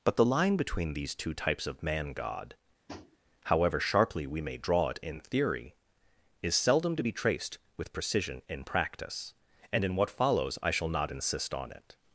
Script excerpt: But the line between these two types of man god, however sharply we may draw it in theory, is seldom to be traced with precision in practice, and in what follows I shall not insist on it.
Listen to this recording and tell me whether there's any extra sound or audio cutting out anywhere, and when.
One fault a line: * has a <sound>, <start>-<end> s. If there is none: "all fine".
* has a tap, 2.9-3.2 s